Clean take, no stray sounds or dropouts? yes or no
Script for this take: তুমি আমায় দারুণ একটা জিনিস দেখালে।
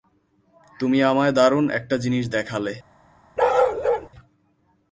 no